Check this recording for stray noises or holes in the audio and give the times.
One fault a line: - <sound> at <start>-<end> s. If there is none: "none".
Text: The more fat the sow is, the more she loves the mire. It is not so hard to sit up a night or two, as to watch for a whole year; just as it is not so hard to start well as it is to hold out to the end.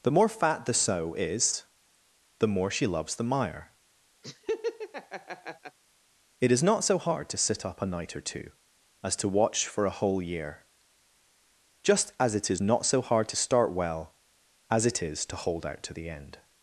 - laugh at 4.2-5.8 s